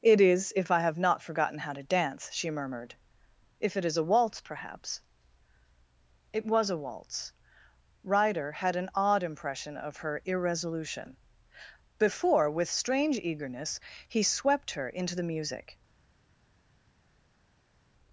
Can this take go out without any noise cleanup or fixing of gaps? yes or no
yes